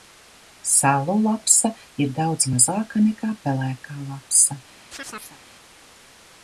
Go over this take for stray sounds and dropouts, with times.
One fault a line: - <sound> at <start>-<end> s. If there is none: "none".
- chirp at 4.9-5.4 s